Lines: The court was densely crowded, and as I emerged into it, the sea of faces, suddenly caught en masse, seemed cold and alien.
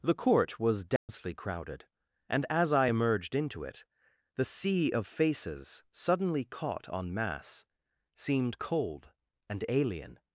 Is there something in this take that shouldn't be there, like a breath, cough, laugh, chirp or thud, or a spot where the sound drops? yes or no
yes